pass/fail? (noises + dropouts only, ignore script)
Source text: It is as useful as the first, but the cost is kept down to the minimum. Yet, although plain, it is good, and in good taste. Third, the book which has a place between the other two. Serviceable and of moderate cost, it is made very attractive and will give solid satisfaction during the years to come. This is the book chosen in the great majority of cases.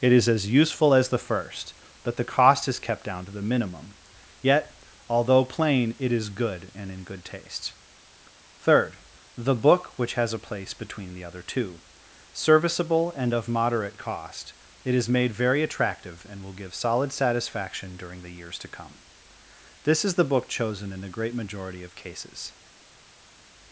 pass